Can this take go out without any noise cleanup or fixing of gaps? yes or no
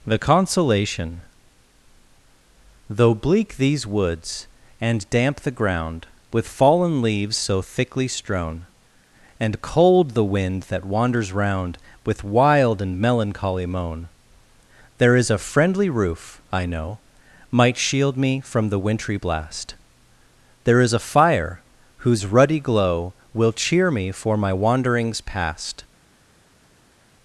yes